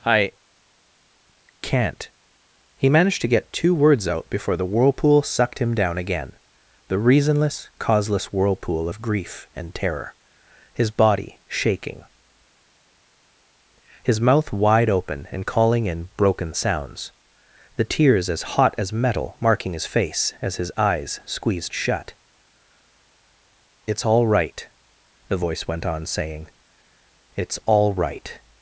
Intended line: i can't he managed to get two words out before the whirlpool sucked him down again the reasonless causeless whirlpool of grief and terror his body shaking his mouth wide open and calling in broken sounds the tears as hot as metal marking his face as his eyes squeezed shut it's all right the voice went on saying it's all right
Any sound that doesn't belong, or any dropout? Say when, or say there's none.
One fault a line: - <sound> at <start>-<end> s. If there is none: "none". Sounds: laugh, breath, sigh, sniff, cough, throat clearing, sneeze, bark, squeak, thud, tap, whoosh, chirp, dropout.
none